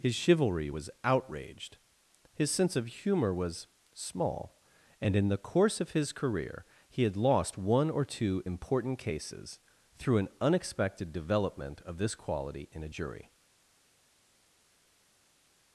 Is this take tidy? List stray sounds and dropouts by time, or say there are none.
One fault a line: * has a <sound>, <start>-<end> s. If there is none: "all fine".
all fine